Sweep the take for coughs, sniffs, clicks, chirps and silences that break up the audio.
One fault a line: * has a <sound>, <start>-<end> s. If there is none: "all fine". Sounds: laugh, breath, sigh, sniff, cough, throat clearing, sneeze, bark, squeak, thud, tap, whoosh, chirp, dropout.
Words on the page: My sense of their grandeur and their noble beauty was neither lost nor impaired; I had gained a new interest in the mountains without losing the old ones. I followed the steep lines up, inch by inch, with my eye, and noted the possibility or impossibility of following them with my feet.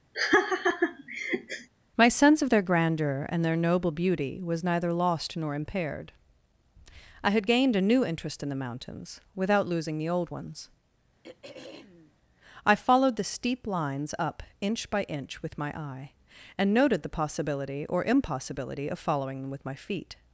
* has a laugh, 0.1-1.7 s
* has a throat clearing, 11.2-12.2 s